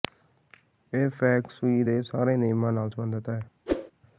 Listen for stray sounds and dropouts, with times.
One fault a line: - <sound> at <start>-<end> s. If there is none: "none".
- whoosh at 3.7-3.9 s